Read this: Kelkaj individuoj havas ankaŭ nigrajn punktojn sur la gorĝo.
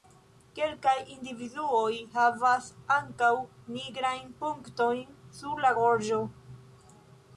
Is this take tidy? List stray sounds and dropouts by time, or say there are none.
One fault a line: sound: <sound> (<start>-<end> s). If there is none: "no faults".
no faults